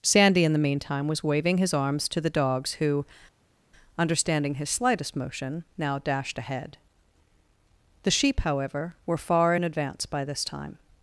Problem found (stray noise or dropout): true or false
false